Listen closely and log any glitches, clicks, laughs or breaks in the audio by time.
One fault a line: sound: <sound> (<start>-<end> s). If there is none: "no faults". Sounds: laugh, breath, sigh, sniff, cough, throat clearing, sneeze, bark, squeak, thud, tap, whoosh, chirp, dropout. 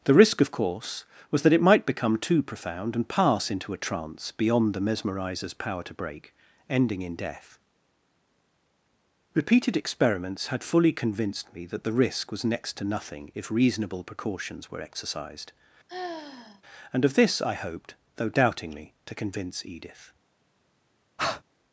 sound: sigh (15.9-16.6 s)
sound: breath (21.2-21.4 s)